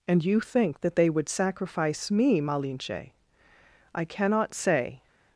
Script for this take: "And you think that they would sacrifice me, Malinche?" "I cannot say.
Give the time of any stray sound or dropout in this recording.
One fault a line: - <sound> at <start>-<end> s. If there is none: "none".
none